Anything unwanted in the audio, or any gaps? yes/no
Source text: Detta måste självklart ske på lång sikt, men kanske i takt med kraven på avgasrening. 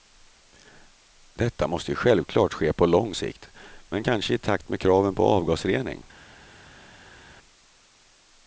no